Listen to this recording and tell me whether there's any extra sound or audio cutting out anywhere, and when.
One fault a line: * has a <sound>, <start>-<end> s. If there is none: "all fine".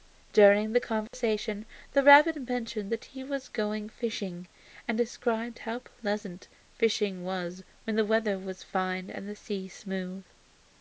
* has a dropout, 1.1-1.1 s